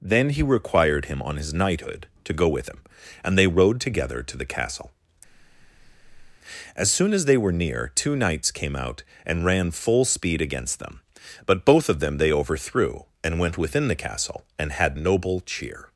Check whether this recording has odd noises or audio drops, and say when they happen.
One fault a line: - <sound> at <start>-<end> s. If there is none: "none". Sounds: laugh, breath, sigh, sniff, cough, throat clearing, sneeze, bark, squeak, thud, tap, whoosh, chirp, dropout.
- breath at 5.2-6.4 s